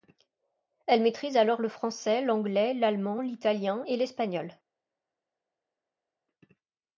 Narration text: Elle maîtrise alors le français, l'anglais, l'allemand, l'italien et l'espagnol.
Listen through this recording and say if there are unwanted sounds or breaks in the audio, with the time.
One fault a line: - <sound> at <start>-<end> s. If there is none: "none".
none